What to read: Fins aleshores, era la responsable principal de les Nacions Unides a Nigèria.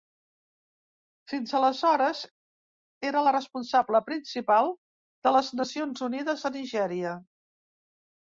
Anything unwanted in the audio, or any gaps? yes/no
no